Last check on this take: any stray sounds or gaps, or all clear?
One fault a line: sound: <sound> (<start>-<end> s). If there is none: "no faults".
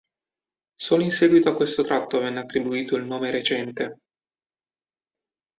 no faults